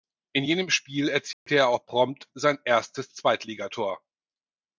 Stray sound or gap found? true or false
true